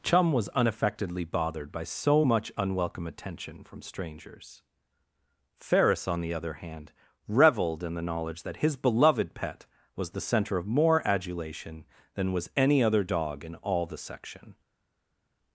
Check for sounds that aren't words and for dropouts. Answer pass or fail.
pass